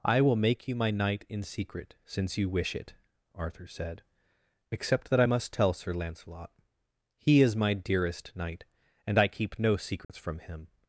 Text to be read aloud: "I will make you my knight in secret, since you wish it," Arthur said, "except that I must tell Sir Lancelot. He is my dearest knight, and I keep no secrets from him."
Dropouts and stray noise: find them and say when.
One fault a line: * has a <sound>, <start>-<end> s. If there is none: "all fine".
* has a dropout, 10.0-10.1 s